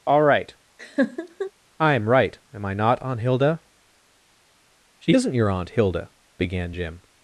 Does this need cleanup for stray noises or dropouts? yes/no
yes